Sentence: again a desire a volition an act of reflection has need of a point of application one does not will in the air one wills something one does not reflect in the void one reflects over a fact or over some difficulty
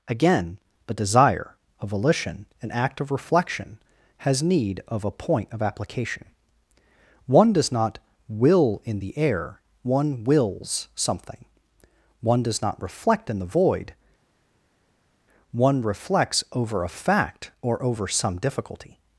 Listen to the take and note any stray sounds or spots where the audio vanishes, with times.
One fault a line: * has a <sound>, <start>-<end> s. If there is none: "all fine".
all fine